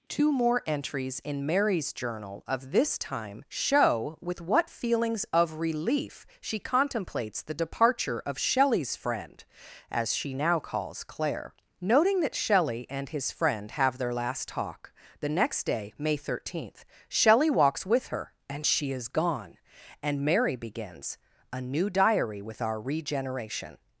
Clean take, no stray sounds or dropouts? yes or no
yes